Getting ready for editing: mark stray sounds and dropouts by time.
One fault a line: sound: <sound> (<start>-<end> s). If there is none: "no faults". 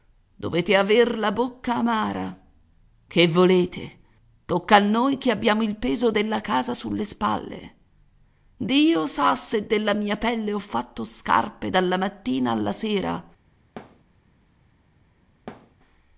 sound: thud (13.8-14.0 s)
sound: thud (15.5-15.8 s)